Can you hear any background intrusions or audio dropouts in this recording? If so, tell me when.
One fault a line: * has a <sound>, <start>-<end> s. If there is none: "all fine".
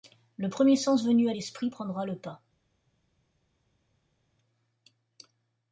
all fine